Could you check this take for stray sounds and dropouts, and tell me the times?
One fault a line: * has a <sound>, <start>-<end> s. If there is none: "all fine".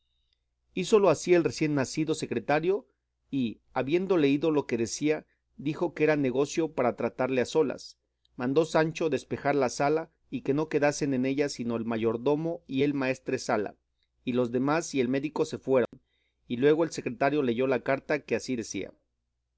* has a dropout, 15.9-15.9 s